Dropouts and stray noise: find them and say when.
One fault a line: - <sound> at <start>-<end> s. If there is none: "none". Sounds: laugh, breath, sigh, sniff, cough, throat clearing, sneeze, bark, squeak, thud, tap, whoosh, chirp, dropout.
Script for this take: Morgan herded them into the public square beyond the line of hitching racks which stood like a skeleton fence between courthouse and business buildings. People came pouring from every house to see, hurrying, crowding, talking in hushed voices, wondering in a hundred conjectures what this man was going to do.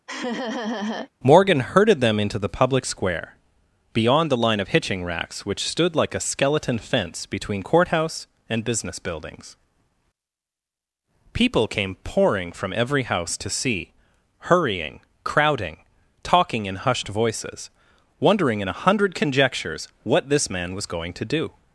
- laugh at 0.1-1.1 s